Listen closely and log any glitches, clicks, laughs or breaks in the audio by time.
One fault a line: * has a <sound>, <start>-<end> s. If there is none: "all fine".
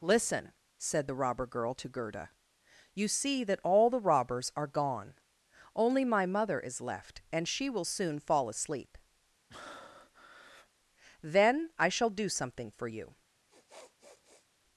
* has a breath, 9.5-10.7 s
* has a sniff, 13.5-14.5 s